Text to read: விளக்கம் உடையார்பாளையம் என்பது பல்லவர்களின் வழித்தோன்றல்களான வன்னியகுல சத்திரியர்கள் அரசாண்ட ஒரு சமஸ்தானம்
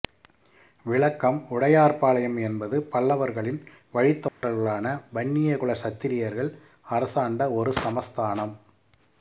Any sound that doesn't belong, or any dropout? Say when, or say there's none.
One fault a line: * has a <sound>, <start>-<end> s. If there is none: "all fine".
* has a dropout, 4.3-4.4 s